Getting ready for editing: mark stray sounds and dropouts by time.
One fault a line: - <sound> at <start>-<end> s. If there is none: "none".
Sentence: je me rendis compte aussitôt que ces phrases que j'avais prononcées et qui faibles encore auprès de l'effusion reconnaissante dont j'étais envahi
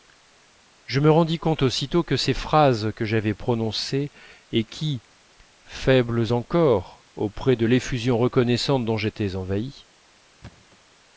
- thud at 10.4-10.8 s